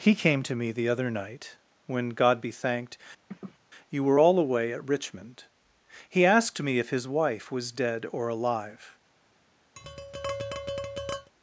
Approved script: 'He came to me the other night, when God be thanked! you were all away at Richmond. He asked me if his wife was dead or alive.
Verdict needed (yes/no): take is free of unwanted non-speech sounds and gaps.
no